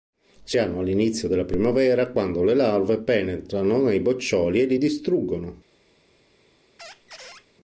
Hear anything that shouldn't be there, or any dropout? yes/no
yes